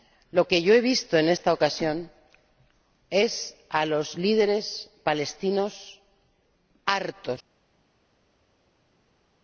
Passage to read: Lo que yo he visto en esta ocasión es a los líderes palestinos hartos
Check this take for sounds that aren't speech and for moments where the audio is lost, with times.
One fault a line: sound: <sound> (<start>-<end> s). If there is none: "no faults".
no faults